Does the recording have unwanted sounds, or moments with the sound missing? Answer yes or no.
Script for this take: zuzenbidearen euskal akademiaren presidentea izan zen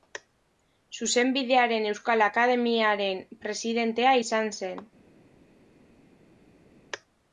no